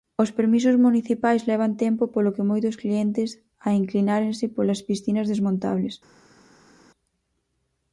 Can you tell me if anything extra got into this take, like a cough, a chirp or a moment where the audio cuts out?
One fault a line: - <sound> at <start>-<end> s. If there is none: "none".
none